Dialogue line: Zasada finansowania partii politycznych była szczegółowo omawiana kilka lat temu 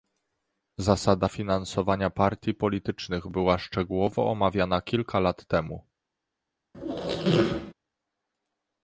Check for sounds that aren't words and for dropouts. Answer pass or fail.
fail